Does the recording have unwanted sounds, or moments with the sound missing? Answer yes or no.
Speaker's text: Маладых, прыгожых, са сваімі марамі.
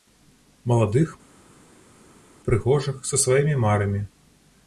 no